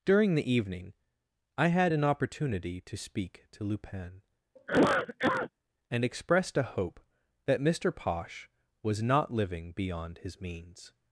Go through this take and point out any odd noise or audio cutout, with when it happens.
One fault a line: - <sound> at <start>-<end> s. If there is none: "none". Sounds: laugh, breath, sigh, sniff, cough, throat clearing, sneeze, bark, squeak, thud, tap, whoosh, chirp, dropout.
- cough at 4.6-5.5 s